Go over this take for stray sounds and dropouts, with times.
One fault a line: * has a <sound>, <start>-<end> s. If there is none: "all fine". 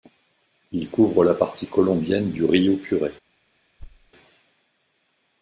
* has a thud, 3.8-4.1 s